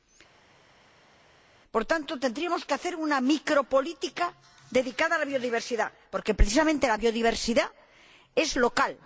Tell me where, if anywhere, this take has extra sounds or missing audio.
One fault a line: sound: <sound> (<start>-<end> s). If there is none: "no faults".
no faults